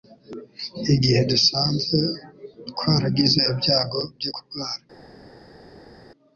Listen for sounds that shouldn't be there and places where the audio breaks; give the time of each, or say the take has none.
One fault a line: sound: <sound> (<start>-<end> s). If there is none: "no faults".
no faults